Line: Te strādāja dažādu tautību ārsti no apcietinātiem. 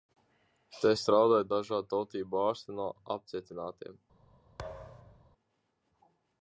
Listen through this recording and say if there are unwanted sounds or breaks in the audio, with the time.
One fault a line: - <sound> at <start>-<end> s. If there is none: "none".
- thud at 4.6-5.3 s